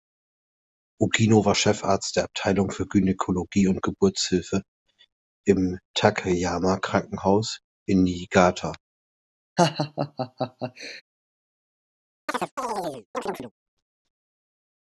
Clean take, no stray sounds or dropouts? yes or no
no